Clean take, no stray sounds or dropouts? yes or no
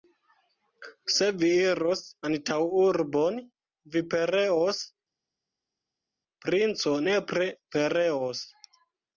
yes